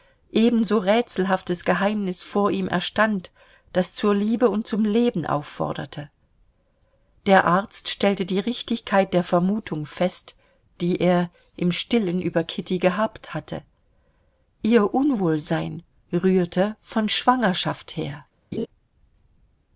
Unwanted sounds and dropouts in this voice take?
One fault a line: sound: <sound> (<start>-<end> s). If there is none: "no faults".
sound: laugh (18.5-18.7 s)